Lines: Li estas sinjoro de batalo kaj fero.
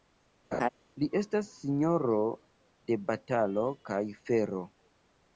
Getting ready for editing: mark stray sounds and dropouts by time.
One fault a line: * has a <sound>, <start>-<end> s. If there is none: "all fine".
* has a laugh, 0.5-0.7 s